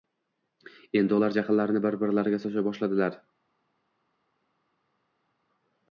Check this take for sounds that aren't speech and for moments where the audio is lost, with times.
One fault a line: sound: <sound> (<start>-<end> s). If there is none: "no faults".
no faults